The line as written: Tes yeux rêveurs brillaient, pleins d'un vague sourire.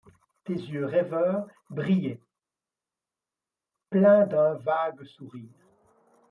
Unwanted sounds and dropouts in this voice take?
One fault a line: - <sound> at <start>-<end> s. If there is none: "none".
none